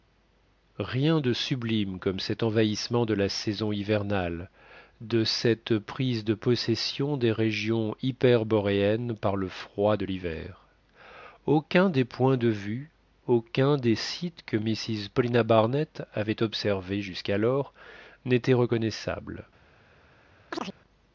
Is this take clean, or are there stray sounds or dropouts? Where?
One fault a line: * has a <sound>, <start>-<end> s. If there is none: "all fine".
* has a chirp, 20.5-20.8 s